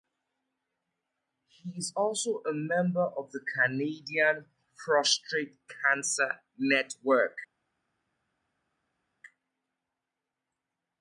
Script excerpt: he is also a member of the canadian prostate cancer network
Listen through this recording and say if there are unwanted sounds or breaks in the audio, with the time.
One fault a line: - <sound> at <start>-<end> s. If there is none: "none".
none